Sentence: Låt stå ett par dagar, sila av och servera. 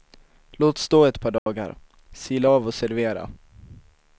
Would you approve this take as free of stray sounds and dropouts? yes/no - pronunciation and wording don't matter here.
no